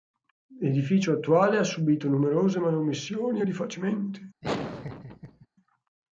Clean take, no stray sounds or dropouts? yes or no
no